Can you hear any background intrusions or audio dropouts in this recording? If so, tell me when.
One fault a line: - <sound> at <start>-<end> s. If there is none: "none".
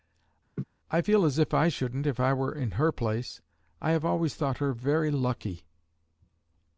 - laugh at 0.6-0.6 s